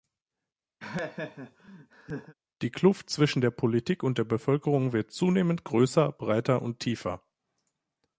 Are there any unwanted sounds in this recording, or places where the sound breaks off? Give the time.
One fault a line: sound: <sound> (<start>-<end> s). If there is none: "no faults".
sound: laugh (0.8-2.3 s)